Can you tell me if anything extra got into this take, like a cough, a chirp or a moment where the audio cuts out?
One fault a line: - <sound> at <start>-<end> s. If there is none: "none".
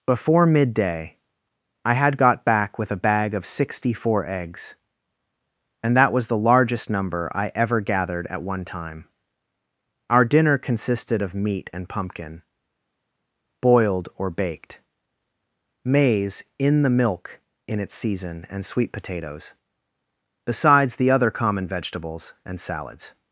none